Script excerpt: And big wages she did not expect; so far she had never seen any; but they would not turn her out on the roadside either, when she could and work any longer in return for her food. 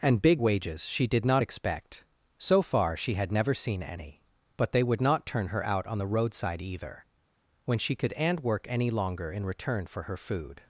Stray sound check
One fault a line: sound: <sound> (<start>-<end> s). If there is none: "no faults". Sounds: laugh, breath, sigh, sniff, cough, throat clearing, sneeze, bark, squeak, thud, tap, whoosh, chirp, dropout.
no faults